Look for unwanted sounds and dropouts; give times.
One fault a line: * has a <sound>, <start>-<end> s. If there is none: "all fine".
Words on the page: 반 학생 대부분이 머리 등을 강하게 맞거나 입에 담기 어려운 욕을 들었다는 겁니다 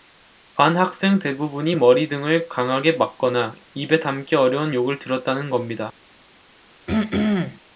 * has a throat clearing, 6.9-7.6 s